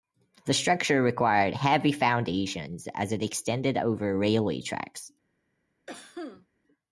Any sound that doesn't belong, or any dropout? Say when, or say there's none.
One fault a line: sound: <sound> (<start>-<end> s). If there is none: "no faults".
sound: cough (5.9-6.5 s)